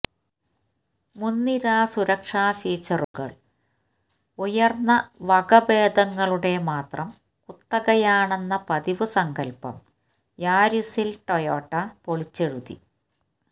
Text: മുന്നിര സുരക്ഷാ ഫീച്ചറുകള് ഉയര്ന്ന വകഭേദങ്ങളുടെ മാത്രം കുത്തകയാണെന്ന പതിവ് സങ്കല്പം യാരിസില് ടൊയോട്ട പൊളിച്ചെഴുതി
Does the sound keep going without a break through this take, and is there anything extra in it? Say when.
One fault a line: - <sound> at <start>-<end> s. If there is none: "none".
- dropout at 3.0-3.1 s